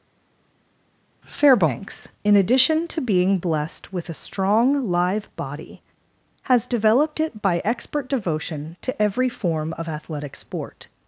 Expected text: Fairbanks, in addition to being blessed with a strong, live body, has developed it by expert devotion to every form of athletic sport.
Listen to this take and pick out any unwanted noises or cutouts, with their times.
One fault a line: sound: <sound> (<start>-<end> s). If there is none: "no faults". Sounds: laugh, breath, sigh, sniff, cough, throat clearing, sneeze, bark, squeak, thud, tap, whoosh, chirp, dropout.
no faults